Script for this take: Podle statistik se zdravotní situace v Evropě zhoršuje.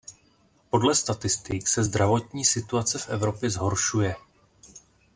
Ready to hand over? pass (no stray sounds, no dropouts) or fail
pass